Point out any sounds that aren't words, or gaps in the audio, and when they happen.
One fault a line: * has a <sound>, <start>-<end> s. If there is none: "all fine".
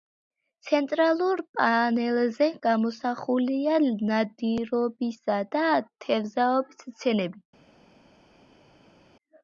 all fine